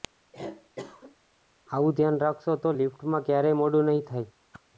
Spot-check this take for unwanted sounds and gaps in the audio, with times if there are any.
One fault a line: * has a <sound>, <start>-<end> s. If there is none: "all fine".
* has a cough, 0.3-1.2 s
* has a whoosh, 4.5-4.6 s